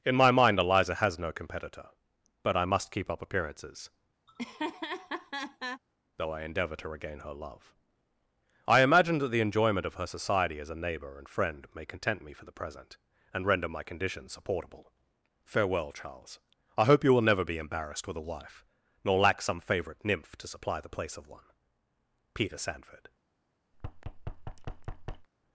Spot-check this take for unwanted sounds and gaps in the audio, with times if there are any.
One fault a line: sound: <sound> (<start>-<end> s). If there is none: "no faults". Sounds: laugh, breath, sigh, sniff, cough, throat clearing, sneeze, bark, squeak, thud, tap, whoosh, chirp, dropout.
sound: laugh (4.3-5.8 s)
sound: thud (23.7-25.3 s)